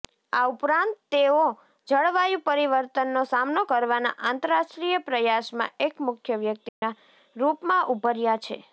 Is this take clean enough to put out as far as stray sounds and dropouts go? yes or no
no